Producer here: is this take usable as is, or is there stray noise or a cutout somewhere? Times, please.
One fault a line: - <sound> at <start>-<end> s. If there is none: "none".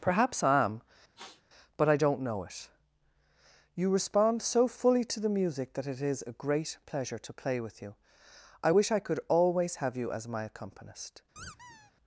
- sniff at 1.2-1.4 s
- squeak at 11.4-11.9 s